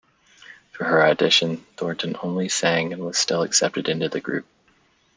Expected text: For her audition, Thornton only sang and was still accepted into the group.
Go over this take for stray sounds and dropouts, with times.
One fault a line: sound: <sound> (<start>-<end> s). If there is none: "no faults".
no faults